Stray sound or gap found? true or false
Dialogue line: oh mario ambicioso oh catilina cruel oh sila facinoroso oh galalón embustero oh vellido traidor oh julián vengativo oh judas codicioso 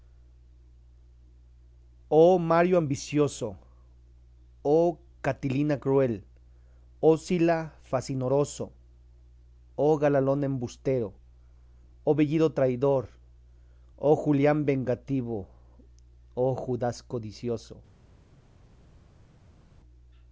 false